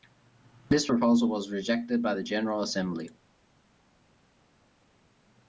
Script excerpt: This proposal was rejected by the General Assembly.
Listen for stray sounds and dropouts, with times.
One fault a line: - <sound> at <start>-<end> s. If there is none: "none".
none